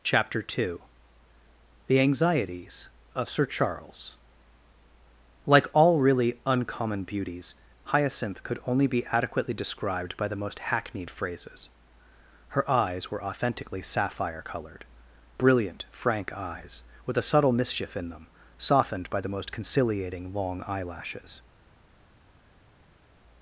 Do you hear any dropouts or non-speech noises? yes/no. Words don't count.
no